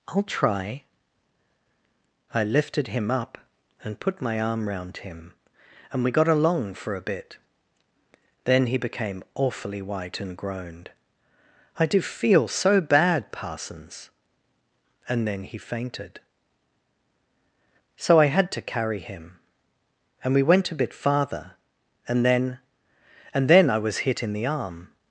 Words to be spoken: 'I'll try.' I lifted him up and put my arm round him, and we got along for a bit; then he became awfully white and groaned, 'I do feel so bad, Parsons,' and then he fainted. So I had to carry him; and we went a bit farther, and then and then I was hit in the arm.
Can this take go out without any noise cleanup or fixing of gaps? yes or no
yes